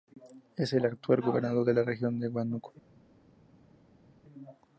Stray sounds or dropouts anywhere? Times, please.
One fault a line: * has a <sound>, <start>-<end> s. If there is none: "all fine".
all fine